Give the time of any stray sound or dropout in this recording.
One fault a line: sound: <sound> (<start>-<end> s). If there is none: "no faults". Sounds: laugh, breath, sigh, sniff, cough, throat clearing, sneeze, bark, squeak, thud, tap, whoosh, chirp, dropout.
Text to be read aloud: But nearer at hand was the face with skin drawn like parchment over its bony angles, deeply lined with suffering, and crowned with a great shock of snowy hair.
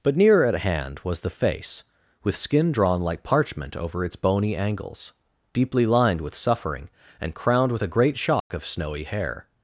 sound: dropout (8.4-8.5 s)